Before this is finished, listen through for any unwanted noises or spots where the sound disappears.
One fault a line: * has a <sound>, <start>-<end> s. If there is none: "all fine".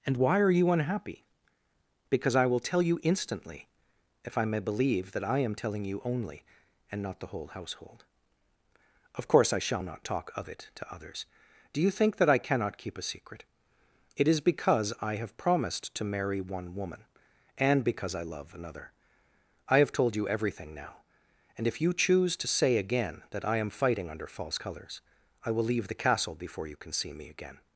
all fine